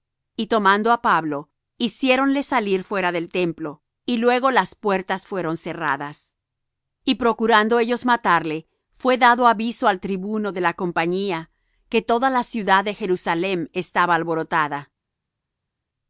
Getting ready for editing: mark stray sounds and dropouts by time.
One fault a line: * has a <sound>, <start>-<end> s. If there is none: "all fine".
all fine